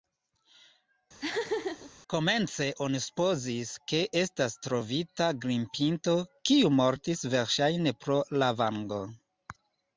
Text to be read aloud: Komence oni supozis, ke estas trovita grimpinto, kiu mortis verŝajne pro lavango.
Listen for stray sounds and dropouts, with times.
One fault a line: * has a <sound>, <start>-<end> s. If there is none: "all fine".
* has a laugh, 1.2-1.9 s